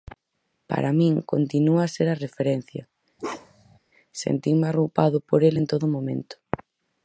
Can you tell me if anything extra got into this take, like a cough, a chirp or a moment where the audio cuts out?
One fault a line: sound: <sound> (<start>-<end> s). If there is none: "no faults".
sound: bark (3.2-3.8 s)